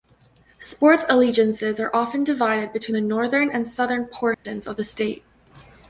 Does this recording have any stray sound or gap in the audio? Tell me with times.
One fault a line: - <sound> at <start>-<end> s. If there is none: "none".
- dropout at 4.3-4.5 s